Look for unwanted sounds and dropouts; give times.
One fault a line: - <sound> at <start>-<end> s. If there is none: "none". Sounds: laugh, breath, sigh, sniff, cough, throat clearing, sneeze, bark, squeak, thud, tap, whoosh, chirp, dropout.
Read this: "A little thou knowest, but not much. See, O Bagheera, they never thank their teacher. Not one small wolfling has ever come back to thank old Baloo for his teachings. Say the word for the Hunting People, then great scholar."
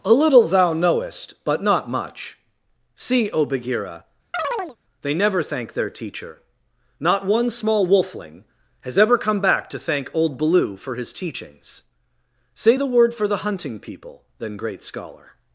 - chirp at 4.3-4.8 s